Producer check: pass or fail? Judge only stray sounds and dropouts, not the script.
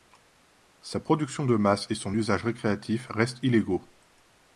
pass